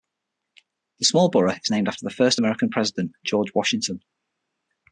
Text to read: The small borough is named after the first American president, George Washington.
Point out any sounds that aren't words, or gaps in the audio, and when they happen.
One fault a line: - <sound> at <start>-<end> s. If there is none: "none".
none